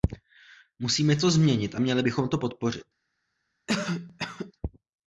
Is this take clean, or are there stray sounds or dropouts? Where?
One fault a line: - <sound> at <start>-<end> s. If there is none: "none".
- cough at 3.7-4.5 s